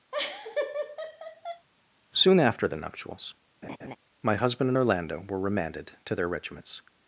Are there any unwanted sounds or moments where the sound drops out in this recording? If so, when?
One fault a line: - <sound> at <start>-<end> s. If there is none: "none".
- laugh at 0.1-1.7 s
- laugh at 3.6-4.0 s